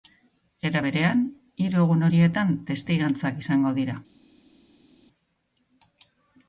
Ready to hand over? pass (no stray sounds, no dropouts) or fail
pass